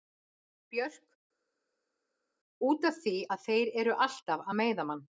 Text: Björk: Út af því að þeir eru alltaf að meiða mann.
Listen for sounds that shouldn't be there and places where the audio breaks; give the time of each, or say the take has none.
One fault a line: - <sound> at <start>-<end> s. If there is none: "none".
none